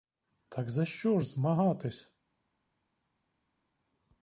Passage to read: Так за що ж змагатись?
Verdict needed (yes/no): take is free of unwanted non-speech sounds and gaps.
yes